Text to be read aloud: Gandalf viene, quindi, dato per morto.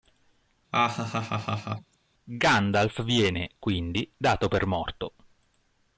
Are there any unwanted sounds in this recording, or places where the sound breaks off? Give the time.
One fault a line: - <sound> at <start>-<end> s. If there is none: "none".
- laugh at 0.7-1.9 s